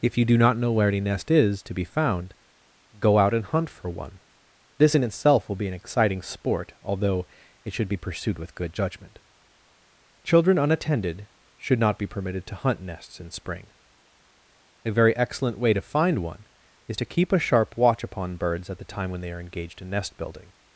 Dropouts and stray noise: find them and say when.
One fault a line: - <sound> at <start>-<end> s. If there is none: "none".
none